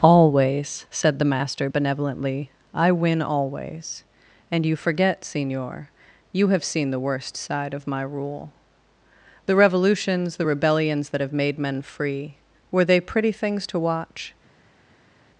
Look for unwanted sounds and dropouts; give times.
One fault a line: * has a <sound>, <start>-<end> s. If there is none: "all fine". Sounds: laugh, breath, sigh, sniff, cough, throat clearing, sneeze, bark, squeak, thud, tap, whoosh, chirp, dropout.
all fine